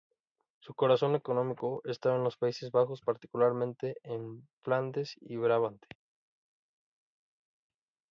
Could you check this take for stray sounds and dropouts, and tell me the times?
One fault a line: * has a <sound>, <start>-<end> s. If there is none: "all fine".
all fine